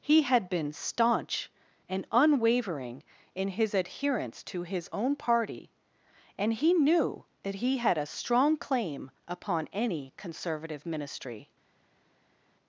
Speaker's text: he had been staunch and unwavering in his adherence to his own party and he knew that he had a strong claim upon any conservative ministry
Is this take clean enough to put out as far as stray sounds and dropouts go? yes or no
yes